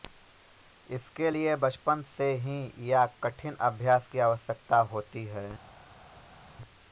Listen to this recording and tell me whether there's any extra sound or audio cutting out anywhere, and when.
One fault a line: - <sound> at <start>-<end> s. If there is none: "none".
none